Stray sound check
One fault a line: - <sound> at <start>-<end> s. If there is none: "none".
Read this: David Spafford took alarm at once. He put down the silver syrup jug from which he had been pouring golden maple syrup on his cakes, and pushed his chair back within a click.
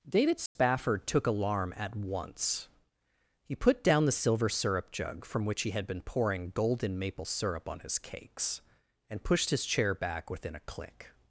- dropout at 0.5-0.6 s